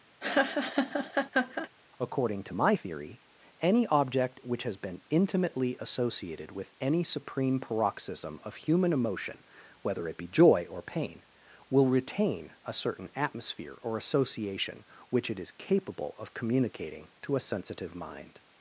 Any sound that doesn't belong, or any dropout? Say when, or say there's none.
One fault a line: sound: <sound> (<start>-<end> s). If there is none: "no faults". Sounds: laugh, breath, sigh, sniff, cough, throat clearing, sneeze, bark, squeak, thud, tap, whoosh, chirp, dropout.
sound: laugh (0.2-1.7 s)